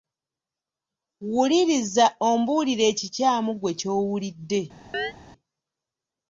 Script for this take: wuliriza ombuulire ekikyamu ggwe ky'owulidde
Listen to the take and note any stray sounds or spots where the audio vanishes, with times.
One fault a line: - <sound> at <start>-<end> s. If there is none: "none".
- chirp at 4.9-5.1 s